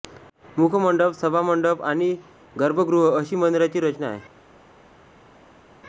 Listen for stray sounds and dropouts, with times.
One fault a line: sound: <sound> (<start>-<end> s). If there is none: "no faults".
no faults